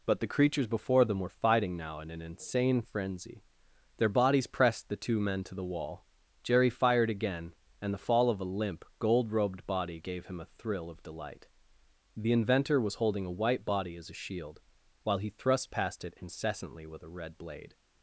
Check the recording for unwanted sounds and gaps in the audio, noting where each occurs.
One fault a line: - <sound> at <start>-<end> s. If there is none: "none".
none